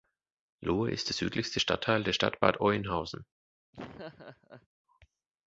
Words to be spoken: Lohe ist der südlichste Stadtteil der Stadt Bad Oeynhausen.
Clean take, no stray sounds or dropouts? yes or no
no